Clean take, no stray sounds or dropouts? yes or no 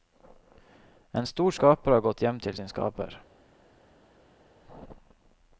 yes